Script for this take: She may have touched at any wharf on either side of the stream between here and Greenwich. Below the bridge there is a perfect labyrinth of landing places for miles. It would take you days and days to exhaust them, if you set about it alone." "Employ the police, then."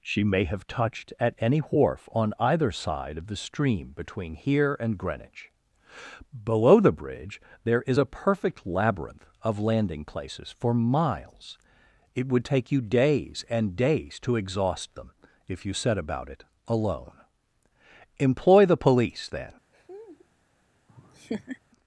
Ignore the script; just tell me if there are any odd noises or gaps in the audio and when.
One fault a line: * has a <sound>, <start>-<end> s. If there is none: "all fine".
* has a laugh, 19.7-20.3 s
* has a laugh, 20.9-21.6 s